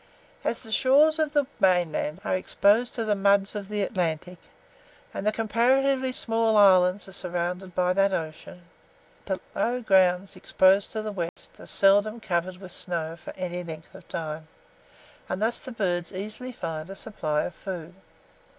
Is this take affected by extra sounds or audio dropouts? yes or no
yes